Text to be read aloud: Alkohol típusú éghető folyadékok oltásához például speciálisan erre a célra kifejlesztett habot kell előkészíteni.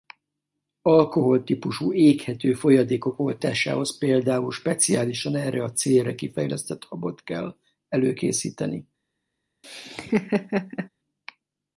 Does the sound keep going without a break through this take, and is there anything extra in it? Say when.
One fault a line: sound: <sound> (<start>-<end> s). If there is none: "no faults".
sound: laugh (9.6-10.9 s)